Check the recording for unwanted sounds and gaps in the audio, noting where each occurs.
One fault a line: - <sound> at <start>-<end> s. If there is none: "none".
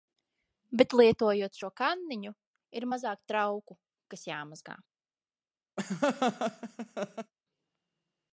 - laugh at 5.8-7.3 s